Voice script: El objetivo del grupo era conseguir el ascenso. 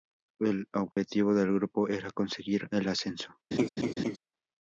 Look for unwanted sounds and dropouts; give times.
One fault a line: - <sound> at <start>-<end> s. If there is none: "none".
- dropout at 0.9-1.0 s
- laugh at 3.5-4.2 s